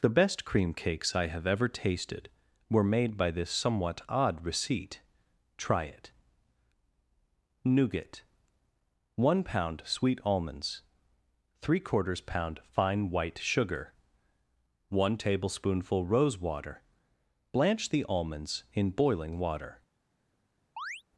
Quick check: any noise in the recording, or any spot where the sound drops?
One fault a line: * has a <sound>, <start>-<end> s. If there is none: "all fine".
* has a chirp, 20.8-21.0 s